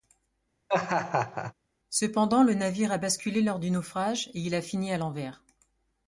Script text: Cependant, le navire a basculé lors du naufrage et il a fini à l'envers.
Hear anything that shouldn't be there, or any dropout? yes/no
yes